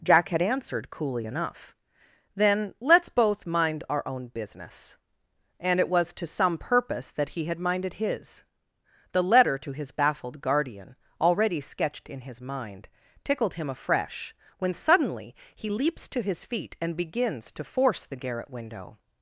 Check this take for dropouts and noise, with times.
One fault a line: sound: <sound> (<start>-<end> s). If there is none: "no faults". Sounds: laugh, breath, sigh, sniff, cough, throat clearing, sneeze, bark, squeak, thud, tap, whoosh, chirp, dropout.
no faults